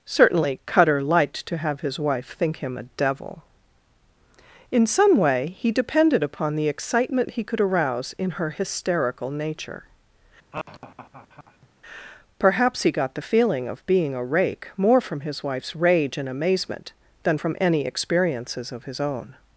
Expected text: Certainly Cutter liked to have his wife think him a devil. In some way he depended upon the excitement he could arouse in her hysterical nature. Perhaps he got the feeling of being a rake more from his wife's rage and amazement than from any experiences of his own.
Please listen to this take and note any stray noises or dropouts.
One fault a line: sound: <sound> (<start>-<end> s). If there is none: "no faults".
sound: laugh (10.5-11.7 s)